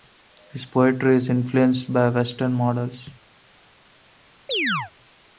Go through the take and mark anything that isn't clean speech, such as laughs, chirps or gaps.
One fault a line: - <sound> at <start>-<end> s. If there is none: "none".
- chirp at 4.5-4.9 s